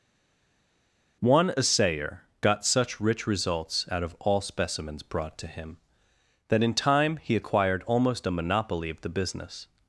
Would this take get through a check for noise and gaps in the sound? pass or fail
pass